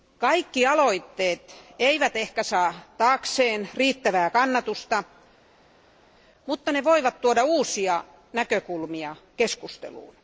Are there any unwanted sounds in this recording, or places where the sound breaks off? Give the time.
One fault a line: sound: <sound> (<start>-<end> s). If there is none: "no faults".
no faults